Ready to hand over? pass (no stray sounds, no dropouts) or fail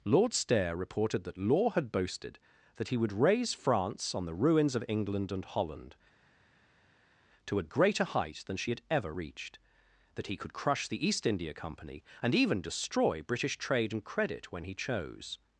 pass